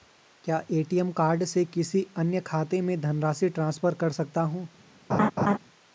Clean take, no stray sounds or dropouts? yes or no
no